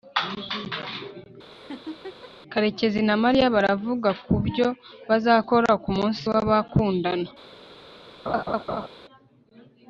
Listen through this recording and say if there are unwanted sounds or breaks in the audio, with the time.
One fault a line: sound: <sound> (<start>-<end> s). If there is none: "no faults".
sound: laugh (1.5-2.3 s)
sound: laugh (8.3-8.9 s)